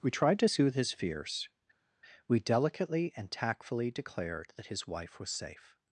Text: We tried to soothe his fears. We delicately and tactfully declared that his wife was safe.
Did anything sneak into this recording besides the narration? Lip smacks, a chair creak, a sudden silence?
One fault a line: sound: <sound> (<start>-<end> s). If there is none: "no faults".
no faults